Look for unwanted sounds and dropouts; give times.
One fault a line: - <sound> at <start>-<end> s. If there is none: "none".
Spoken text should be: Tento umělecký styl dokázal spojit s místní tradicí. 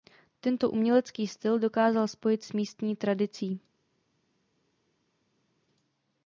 none